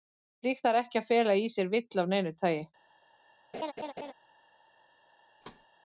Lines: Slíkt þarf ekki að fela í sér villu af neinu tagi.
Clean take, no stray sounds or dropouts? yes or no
no